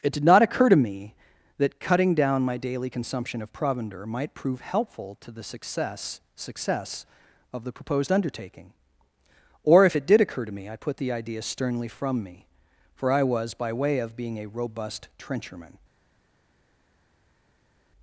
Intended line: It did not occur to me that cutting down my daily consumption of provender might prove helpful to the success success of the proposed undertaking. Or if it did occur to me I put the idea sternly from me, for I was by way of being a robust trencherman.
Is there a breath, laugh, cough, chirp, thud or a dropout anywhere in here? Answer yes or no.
no